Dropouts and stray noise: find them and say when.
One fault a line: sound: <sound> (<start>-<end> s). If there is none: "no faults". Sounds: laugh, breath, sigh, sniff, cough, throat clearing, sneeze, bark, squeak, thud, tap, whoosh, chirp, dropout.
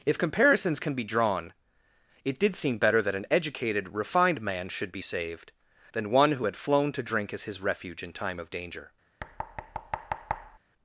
sound: thud (9.2-10.6 s)